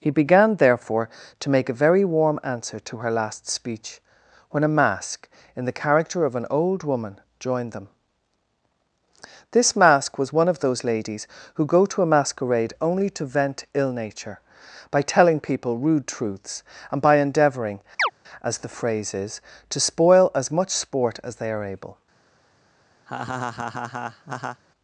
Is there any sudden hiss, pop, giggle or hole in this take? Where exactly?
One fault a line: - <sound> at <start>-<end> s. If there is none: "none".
- chirp at 18.0-18.1 s
- laugh at 23.1-24.6 s